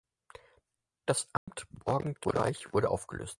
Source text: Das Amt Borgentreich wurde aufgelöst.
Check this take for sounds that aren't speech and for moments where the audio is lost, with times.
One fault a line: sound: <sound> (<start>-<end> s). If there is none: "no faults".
sound: dropout (1.4-1.5 s)